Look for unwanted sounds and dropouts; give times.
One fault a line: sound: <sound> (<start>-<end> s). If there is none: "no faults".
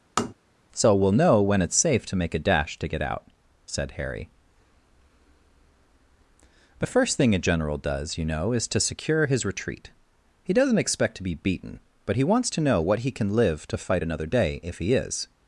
sound: tap (0.2-0.3 s)